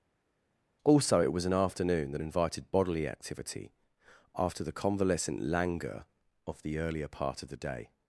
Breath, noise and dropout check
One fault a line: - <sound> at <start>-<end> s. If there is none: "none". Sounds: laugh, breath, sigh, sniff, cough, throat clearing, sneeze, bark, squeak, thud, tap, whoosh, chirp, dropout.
none